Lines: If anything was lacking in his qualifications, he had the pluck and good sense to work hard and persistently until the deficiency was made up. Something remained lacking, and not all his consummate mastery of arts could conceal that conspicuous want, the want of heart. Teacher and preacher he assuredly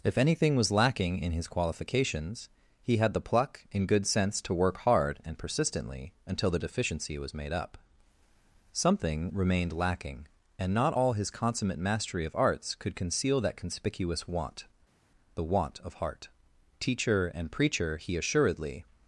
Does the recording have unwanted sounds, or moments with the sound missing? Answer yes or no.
no